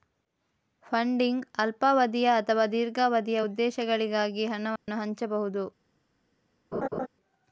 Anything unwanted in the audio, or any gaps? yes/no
yes